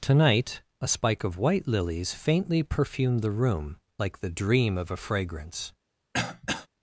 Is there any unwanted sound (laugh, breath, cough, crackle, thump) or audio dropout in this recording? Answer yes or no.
yes